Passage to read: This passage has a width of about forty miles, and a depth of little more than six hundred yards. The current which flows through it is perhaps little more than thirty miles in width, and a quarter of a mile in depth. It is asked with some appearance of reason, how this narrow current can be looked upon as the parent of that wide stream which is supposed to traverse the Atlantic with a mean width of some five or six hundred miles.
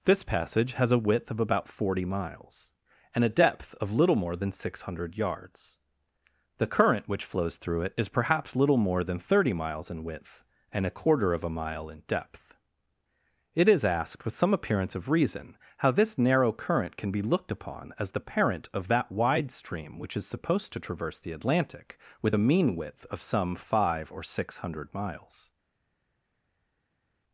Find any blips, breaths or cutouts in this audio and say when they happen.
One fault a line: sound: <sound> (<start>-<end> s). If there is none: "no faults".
no faults